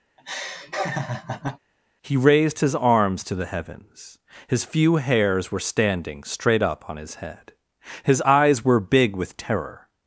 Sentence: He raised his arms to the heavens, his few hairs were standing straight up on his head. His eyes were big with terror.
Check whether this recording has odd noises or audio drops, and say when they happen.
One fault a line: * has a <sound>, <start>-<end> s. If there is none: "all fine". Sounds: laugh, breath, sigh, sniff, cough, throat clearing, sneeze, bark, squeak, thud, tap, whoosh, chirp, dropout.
* has a laugh, 0.2-1.6 s